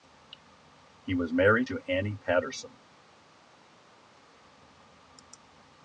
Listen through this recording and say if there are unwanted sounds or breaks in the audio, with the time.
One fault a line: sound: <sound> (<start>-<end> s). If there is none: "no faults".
no faults